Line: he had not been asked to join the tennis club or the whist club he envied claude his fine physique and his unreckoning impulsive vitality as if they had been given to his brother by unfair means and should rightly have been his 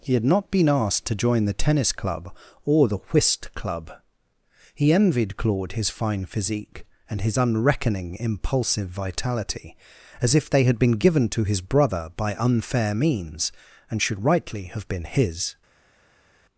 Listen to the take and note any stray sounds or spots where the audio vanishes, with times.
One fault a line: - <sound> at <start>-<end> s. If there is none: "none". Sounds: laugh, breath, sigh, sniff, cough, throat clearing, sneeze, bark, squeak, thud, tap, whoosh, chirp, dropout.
none